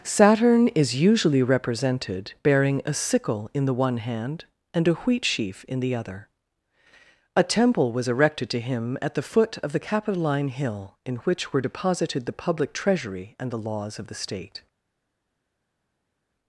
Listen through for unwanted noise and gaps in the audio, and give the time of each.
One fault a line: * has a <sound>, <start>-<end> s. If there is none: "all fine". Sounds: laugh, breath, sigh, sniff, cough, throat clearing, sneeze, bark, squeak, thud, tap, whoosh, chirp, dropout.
all fine